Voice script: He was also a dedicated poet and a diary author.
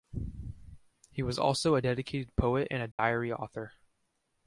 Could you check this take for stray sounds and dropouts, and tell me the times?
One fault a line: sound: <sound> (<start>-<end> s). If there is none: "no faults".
sound: dropout (2.9-3.0 s)